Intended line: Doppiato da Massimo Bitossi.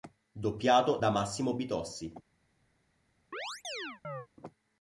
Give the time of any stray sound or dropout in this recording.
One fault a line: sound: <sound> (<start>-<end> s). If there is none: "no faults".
sound: chirp (3.3-4.3 s)